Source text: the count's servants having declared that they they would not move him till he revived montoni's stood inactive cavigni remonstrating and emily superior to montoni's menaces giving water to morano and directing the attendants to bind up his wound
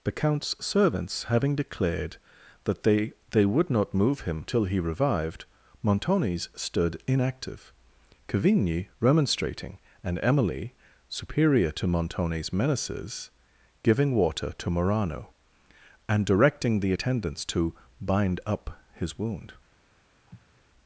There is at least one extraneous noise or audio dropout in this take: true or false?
true